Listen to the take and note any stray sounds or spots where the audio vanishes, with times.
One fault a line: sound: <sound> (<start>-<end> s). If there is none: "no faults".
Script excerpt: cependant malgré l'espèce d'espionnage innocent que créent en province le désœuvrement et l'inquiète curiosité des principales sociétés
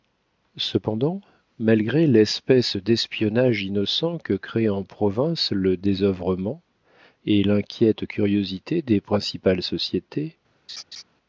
sound: laugh (10.7-11.0 s)